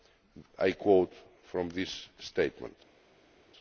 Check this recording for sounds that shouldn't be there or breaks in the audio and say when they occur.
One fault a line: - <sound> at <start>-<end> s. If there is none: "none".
none